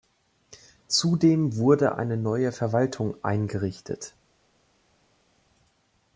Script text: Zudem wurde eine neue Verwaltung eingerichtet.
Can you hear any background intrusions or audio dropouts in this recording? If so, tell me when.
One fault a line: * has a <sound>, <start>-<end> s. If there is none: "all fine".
all fine